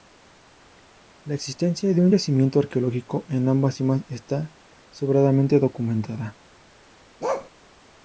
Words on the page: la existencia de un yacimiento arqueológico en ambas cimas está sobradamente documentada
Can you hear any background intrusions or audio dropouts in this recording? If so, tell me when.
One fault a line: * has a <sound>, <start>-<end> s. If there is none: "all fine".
* has a bark, 7.2-7.5 s